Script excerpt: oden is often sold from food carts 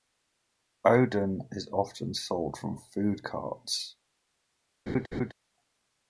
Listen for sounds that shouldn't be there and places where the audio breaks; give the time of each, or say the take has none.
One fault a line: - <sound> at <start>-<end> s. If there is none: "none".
- laugh at 4.9-5.3 s